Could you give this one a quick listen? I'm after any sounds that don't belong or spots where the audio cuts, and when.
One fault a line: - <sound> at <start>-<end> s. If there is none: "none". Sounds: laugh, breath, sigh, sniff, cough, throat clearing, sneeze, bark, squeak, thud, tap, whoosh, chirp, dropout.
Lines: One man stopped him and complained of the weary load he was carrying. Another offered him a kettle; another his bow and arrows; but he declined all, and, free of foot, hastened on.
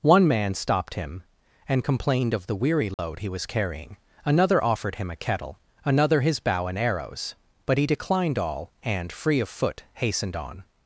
- dropout at 2.9-3.0 s